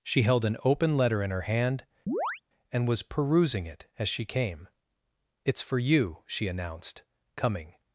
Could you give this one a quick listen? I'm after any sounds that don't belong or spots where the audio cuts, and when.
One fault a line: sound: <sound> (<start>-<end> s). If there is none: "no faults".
sound: chirp (2.1-2.4 s)